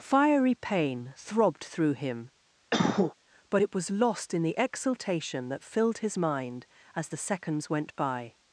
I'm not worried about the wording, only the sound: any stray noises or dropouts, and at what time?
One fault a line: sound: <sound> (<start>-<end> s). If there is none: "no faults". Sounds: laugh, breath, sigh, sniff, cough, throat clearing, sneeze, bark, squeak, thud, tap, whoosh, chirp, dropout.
sound: cough (2.7-3.1 s)